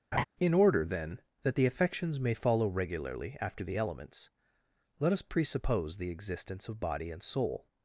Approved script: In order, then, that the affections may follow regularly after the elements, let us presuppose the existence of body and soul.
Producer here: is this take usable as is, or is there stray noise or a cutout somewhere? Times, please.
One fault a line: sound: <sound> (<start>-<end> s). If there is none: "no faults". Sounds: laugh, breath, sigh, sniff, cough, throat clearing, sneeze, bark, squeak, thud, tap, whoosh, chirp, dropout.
sound: laugh (0.1-0.2 s)